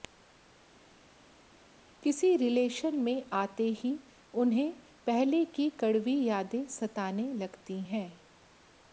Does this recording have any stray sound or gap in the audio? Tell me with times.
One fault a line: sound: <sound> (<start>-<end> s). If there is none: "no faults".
no faults